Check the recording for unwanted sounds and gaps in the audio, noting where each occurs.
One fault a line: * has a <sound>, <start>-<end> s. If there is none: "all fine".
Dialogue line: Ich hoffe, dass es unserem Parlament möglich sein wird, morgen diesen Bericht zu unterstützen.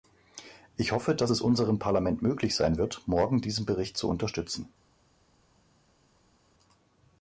all fine